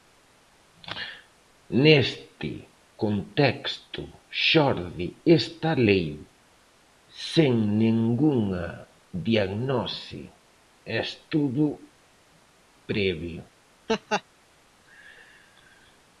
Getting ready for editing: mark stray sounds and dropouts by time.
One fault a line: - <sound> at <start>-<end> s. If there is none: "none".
- laugh at 13.9-14.2 s